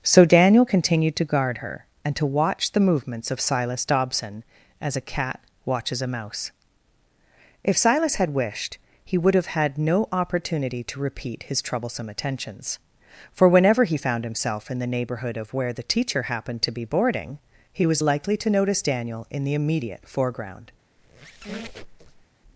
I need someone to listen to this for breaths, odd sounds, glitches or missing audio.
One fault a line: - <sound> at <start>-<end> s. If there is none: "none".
- squeak at 21.0-22.3 s